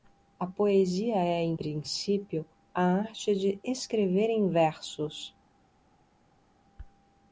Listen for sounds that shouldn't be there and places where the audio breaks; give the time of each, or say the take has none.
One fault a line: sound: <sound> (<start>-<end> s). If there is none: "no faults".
no faults